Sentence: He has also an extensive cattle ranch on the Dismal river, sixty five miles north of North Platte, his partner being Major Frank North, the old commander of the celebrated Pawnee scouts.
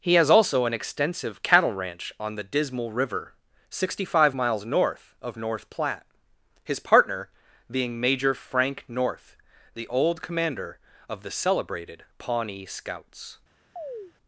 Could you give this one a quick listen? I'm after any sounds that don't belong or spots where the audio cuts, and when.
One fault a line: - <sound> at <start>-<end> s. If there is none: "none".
- chirp at 13.8-14.1 s